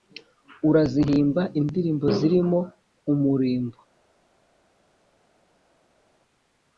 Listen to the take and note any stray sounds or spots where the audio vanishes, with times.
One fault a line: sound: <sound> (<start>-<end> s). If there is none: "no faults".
no faults